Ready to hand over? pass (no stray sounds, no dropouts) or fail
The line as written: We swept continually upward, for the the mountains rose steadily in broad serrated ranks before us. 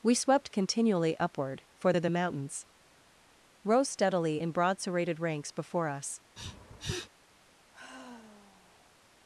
fail